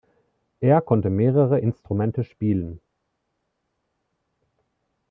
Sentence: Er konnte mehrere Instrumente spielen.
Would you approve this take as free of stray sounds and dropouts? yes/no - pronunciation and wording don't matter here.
yes